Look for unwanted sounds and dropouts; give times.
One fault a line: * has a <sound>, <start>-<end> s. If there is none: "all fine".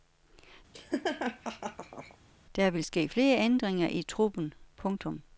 * has a laugh, 0.7-2.2 s